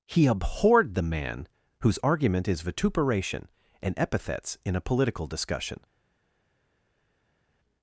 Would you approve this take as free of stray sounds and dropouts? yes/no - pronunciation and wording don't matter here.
yes